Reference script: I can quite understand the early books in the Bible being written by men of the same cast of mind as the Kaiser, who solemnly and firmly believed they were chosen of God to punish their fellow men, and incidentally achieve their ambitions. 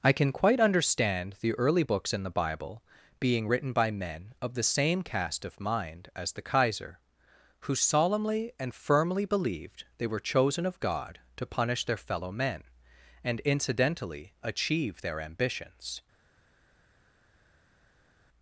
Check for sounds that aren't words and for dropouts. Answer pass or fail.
pass